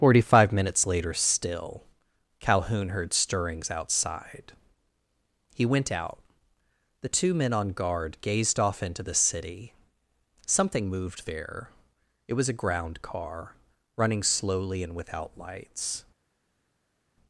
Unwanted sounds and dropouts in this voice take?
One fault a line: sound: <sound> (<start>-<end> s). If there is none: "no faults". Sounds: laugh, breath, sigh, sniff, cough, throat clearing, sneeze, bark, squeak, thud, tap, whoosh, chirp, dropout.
no faults